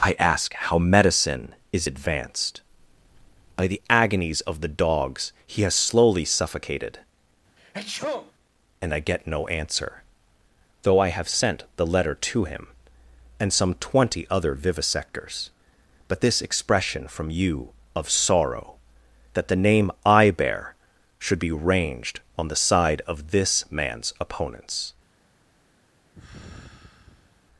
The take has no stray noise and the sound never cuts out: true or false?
false